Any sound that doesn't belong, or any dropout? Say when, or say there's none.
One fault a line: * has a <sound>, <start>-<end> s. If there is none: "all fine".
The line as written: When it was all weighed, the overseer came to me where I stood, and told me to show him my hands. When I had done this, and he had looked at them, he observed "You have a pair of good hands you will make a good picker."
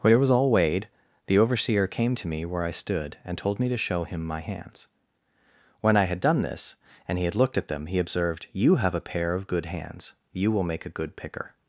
all fine